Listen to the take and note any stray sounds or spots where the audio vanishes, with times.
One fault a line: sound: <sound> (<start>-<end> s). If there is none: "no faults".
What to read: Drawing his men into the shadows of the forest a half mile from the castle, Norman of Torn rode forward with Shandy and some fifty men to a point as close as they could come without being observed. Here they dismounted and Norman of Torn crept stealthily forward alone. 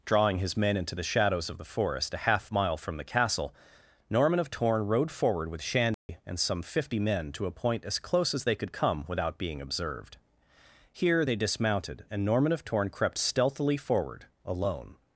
sound: dropout (5.9-6.1 s)